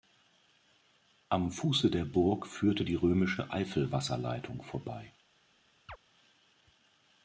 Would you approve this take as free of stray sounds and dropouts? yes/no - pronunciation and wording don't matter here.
no